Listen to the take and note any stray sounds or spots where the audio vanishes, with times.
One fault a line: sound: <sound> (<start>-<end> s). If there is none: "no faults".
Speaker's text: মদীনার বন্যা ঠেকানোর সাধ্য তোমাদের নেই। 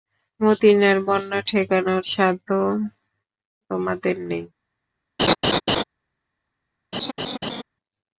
sound: laugh (5.2-5.8 s)
sound: laugh (6.9-7.6 s)